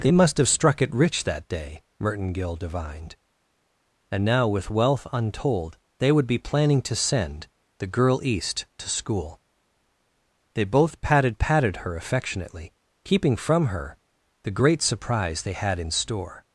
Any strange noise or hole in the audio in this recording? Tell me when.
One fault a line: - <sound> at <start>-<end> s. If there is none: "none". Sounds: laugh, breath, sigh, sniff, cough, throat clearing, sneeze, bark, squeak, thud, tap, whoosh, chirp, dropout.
none